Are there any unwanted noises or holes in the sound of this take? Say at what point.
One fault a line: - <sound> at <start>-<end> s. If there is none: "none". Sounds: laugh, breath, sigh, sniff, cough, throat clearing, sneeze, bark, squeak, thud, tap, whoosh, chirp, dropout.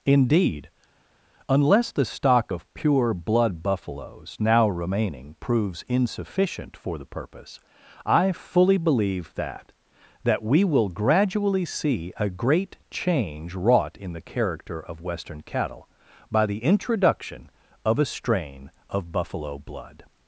none